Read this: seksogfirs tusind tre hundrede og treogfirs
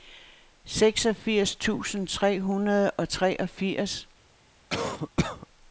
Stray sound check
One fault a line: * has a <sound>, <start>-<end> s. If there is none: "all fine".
* has a cough, 4.7-5.5 s